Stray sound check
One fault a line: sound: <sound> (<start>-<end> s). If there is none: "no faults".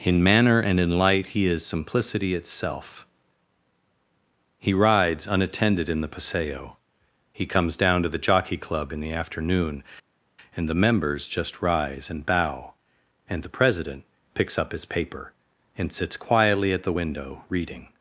no faults